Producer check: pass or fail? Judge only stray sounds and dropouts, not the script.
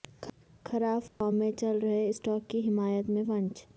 fail